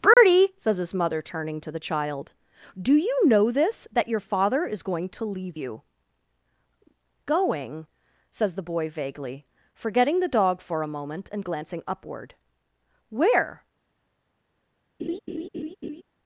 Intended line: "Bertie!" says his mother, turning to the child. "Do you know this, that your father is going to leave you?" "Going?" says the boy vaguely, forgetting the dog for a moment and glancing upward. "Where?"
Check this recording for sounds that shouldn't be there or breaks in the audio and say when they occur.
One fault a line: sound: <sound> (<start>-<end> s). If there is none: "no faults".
sound: dropout (0.1-0.2 s)
sound: laugh (15.0-16.0 s)